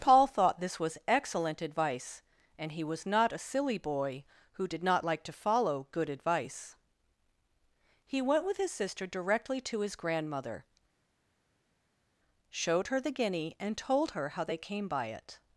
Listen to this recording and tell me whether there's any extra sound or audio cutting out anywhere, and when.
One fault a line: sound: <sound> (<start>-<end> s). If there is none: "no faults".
no faults